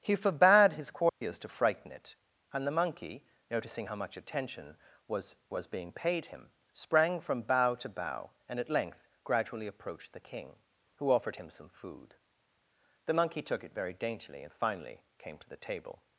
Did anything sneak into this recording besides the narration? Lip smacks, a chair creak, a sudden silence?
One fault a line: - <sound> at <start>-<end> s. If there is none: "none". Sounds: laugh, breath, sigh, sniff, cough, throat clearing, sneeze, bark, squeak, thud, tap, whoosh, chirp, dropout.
- dropout at 1.1-1.2 s